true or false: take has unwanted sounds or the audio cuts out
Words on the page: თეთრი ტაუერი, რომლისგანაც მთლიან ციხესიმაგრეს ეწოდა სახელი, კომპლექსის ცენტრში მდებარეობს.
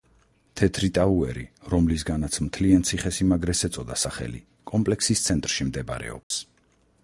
true